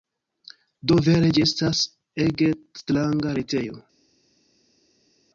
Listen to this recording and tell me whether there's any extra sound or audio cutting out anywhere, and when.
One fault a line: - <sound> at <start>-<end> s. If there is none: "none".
none